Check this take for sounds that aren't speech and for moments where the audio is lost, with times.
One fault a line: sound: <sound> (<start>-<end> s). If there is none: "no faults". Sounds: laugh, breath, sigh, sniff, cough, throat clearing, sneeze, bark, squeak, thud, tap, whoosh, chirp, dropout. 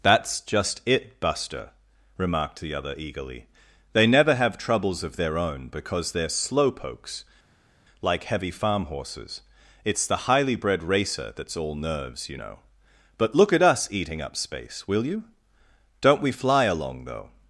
no faults